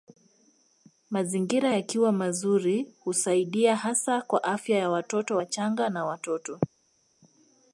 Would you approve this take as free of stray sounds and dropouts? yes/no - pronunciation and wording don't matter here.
yes